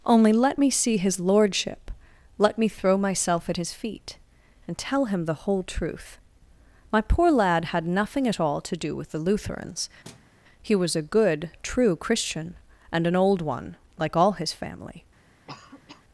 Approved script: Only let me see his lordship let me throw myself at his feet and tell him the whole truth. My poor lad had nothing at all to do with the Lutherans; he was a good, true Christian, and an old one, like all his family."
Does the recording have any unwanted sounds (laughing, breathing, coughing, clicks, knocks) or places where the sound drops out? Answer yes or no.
yes